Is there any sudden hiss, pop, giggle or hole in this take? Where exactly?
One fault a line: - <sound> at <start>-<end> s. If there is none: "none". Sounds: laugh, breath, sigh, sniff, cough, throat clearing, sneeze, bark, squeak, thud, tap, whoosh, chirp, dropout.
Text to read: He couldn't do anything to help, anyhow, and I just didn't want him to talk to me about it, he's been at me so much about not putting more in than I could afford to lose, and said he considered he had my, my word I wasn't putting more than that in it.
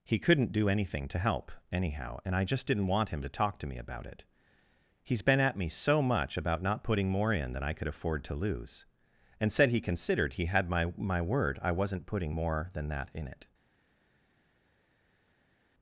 none